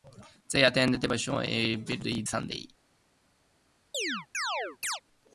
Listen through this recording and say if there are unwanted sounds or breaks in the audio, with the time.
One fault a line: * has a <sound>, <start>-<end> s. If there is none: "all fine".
* has a chirp, 3.9-5.0 s